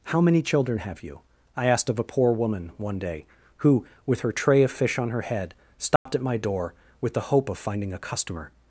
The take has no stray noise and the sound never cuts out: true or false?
false